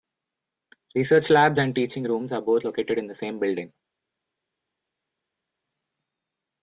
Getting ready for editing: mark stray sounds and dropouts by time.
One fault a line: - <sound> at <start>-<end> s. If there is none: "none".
none